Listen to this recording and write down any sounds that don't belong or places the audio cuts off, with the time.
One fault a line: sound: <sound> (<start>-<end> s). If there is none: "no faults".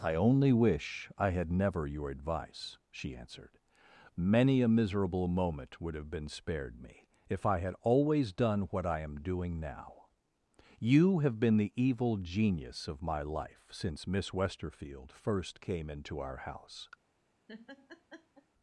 sound: laugh (17.5-18.5 s)